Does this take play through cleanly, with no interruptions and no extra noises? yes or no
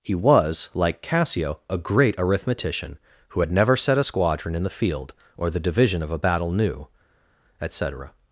yes